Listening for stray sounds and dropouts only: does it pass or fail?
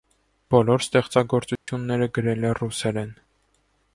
fail